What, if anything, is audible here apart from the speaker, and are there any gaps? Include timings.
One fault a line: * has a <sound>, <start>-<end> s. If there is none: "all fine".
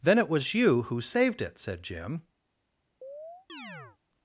* has a chirp, 3.0-4.0 s